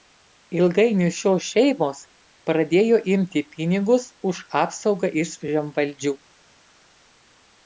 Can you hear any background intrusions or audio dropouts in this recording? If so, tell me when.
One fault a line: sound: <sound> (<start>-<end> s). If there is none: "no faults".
no faults